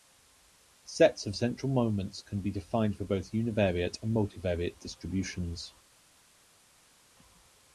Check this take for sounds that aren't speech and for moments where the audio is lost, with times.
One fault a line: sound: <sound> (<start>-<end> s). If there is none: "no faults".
no faults